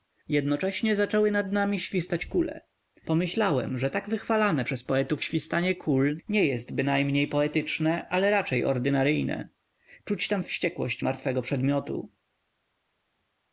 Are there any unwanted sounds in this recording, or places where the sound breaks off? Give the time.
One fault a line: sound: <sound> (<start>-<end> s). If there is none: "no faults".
no faults